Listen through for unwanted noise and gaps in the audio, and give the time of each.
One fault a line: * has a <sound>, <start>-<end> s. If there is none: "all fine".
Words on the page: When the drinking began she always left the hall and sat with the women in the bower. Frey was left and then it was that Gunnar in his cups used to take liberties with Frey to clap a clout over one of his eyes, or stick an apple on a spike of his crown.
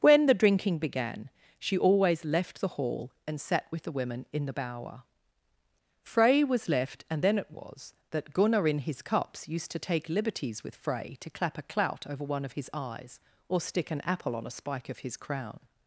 all fine